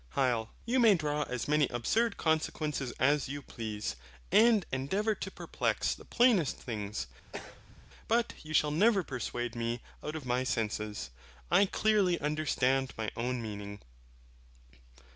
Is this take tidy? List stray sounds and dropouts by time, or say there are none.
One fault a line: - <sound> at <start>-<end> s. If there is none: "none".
- throat clearing at 7.3-7.9 s